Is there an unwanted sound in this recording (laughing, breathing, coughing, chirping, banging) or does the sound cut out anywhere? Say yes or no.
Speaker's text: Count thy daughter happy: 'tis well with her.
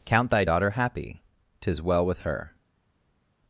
no